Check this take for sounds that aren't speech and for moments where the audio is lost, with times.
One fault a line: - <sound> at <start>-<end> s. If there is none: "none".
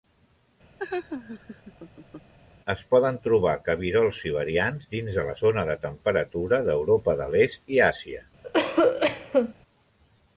- laugh at 0.8-2.3 s
- cough at 8.4-9.5 s